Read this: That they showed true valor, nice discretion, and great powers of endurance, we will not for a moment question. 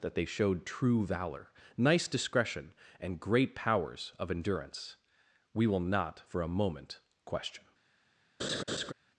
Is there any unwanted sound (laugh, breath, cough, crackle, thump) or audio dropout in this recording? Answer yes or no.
yes